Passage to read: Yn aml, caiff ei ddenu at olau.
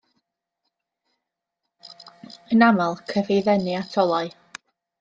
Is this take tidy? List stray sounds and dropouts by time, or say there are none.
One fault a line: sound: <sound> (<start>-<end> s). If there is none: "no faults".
no faults